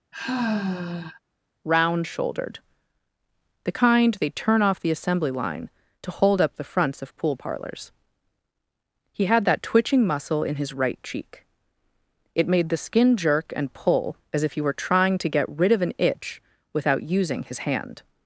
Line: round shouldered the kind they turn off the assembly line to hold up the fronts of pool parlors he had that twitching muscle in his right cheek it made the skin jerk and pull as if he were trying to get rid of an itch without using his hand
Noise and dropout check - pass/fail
fail